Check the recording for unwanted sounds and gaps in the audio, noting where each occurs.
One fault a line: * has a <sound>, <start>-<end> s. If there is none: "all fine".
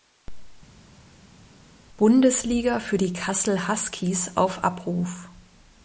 all fine